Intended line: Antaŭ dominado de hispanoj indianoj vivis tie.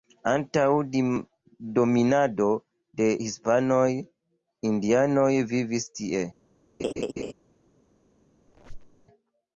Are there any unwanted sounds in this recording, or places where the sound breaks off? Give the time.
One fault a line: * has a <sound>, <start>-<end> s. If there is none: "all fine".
* has a laugh, 6.8-7.3 s
* has a squeak, 8.5-9.1 s